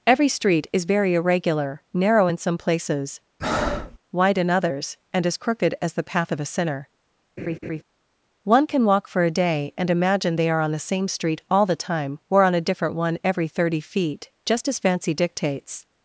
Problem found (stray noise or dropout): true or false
true